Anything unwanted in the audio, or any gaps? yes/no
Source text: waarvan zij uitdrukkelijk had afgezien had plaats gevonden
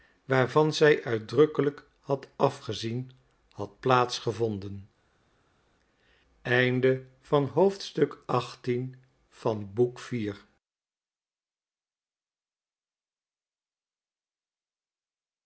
no